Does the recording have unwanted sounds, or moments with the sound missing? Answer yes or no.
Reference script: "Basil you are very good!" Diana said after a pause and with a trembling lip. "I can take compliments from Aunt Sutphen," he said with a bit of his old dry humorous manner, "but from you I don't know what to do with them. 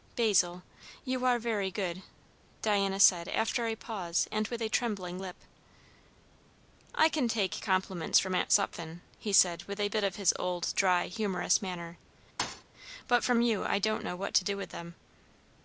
yes